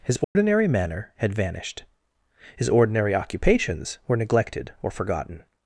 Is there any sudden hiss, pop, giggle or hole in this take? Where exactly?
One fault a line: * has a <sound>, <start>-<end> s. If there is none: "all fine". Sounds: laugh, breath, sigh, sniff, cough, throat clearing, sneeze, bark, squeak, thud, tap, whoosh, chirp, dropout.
* has a dropout, 0.2-0.4 s